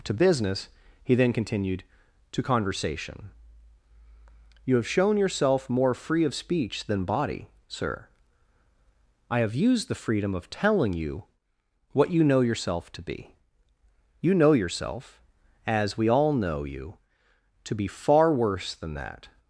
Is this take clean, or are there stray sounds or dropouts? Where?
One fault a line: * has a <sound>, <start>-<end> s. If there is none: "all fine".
all fine